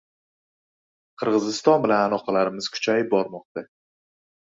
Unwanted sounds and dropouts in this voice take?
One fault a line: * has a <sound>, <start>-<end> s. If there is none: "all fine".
all fine